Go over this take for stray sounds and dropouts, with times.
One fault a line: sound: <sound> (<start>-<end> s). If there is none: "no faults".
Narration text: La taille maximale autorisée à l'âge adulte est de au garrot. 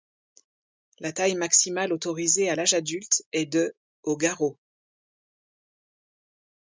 no faults